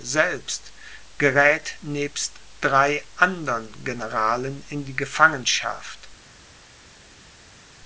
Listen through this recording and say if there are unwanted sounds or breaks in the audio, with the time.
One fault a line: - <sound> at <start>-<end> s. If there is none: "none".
none